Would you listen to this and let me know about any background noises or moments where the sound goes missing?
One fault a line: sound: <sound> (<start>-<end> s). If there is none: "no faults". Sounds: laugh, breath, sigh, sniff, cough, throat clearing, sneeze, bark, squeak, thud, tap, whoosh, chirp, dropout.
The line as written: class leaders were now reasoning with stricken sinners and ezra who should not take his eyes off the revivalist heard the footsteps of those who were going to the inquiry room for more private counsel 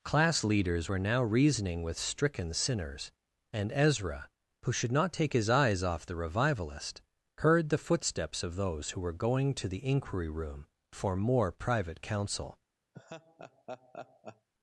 sound: laugh (12.9-14.5 s)